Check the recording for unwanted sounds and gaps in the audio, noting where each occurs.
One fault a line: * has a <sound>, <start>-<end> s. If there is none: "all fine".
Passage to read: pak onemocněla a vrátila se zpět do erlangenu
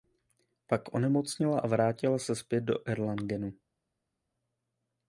all fine